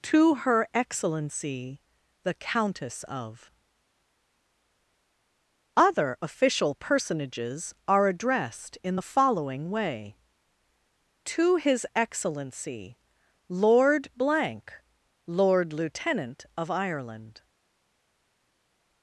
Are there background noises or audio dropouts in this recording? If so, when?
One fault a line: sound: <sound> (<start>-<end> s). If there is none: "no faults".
no faults